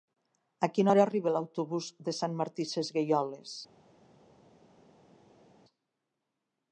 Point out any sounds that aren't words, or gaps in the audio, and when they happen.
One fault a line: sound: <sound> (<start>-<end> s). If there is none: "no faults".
no faults